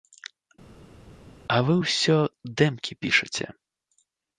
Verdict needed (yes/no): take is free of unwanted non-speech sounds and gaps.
yes